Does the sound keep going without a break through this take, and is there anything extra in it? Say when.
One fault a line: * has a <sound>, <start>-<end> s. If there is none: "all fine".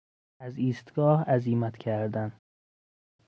all fine